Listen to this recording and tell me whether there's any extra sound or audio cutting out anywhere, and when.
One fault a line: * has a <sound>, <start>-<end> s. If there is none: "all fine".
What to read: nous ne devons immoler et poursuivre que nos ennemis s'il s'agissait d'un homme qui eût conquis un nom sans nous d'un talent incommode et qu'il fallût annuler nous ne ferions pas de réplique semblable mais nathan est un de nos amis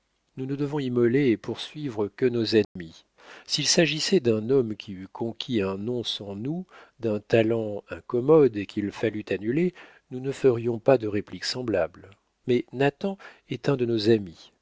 * has a dropout, 2.6-2.8 s